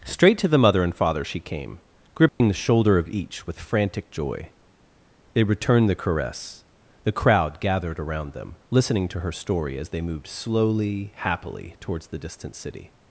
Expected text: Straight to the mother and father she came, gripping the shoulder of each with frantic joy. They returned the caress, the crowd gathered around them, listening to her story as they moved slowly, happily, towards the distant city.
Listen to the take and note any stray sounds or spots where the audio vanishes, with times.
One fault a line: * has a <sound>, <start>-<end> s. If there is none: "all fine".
* has a dropout, 2.3-2.4 s